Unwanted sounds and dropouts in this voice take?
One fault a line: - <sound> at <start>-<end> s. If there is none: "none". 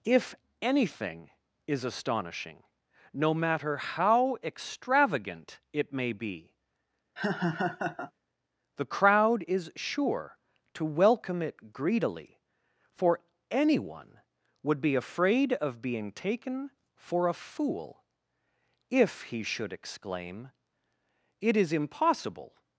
- laugh at 7.2-8.1 s